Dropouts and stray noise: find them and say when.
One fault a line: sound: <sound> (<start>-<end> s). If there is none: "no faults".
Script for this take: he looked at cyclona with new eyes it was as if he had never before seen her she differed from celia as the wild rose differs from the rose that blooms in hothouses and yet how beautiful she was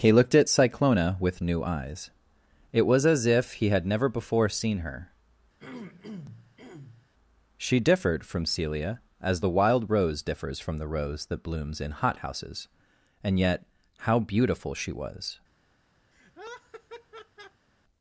sound: throat clearing (5.6-7.1 s)
sound: laugh (16.1-17.7 s)